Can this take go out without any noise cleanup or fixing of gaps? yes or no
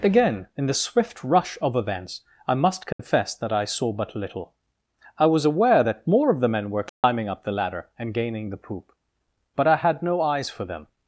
no